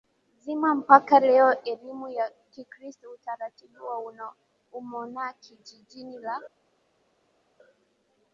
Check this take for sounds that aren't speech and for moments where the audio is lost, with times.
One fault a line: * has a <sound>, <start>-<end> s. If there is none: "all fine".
all fine